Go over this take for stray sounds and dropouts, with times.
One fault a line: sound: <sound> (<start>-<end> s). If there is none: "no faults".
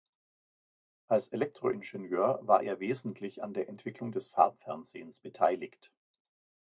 no faults